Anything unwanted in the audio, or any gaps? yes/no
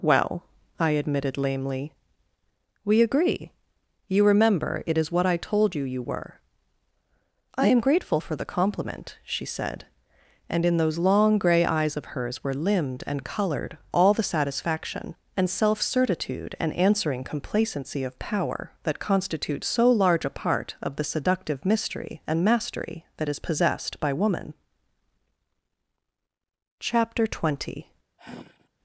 yes